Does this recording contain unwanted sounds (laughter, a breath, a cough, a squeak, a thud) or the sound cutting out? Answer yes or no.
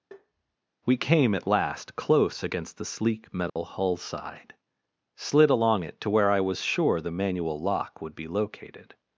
yes